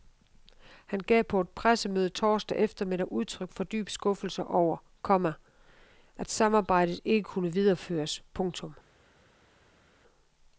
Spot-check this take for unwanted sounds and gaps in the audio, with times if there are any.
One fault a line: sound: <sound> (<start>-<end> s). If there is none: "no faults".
no faults